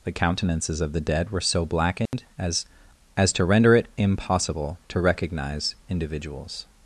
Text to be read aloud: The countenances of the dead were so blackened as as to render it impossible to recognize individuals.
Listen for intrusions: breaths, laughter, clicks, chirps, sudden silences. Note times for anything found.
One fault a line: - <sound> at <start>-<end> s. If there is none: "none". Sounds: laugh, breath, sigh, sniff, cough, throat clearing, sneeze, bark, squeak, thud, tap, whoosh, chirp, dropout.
- dropout at 2.1-2.1 s